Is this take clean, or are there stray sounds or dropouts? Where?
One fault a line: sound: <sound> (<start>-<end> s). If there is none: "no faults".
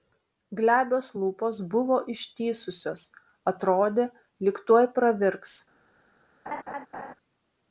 sound: laugh (6.5-7.1 s)